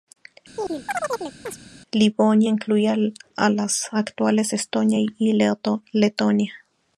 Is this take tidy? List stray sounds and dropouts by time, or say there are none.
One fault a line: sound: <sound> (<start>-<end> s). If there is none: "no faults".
sound: chirp (0.6-1.6 s)